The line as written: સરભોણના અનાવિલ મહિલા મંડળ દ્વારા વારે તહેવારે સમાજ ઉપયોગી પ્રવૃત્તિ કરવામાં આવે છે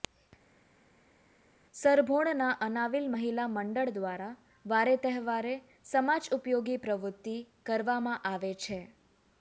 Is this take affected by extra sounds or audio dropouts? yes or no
no